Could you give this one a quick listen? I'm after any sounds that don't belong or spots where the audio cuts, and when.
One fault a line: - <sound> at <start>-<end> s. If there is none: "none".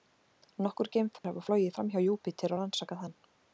- dropout at 1.2-1.2 s